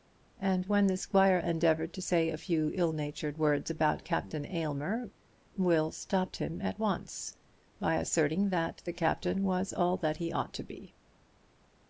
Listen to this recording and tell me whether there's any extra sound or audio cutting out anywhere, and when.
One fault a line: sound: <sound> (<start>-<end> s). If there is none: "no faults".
no faults